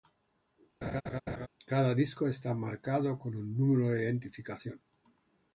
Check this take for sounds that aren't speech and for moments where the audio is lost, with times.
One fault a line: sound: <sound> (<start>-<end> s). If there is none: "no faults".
sound: laugh (0.8-1.5 s)